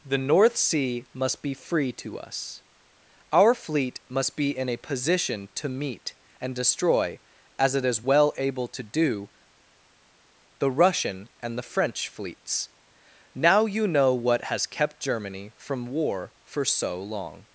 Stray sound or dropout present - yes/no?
no